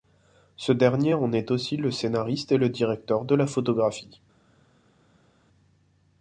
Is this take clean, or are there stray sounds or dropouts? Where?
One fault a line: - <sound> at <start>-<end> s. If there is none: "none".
none